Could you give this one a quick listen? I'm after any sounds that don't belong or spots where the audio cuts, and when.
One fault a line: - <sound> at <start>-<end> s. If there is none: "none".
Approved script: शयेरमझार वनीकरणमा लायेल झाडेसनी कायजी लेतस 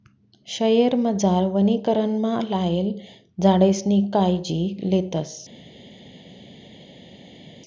none